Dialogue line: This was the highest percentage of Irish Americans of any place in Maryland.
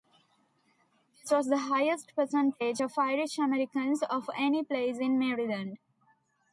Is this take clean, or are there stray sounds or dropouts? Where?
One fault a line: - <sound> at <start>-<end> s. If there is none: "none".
none